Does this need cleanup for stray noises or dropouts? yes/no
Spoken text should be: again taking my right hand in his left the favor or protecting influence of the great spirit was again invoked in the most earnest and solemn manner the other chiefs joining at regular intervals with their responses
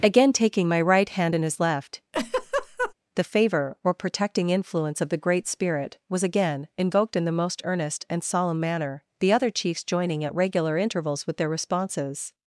yes